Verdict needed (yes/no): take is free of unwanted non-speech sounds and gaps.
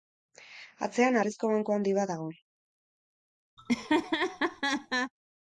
no